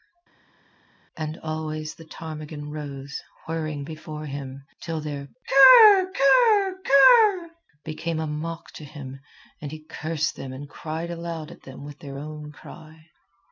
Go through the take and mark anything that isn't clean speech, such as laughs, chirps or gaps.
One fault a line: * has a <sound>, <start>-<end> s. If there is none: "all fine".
all fine